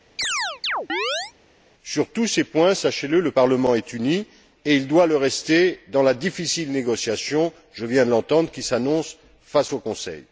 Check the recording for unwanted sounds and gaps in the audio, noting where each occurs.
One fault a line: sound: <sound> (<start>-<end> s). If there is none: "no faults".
sound: chirp (0.2-1.3 s)